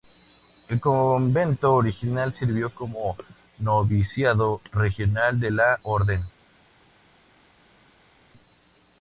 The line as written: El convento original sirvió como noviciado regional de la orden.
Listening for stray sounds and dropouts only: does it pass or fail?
pass